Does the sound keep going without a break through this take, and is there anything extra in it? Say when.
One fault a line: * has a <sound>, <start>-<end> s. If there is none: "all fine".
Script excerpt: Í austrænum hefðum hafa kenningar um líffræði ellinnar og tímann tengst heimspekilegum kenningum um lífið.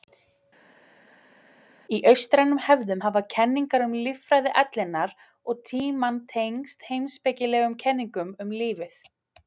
all fine